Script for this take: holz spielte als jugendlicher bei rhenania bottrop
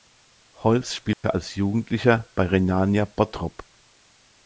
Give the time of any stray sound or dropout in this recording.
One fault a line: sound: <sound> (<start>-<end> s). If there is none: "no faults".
sound: dropout (1.1-1.2 s)